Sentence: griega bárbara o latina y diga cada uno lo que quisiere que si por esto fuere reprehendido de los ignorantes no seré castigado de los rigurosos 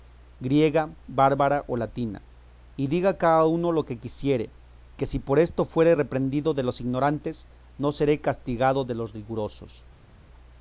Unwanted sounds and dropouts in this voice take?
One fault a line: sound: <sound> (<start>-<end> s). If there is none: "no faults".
no faults